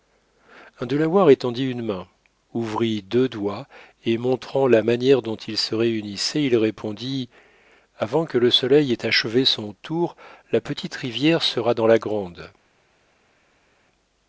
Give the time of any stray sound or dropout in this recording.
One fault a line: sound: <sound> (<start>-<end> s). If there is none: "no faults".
no faults